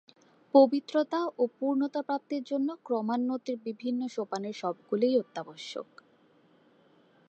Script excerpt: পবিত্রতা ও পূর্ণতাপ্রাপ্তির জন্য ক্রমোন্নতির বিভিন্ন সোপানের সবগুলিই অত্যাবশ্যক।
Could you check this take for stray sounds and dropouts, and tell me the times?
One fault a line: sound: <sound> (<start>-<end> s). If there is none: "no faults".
no faults